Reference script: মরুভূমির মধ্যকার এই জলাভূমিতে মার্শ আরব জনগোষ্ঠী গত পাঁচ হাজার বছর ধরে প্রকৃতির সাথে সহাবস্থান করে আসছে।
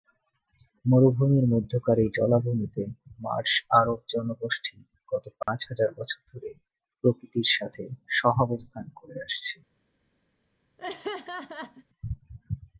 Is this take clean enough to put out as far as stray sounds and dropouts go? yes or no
no